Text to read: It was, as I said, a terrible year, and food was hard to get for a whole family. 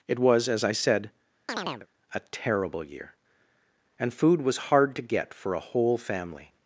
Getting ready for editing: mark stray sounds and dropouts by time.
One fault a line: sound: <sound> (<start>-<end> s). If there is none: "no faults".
sound: chirp (1.5-1.9 s)